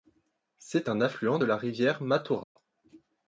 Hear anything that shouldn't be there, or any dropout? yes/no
yes